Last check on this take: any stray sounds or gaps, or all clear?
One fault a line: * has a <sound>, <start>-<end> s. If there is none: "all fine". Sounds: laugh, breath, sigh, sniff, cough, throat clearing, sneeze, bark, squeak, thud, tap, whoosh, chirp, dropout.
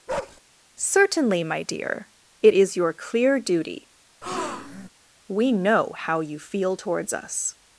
* has a bark, 0.1-0.4 s
* has a breath, 4.2-4.9 s